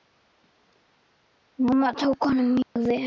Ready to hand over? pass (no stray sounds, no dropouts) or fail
fail